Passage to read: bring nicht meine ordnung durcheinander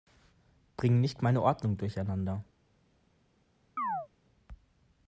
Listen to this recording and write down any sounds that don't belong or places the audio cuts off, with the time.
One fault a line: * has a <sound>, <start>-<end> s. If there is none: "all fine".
* has a chirp, 3.8-4.1 s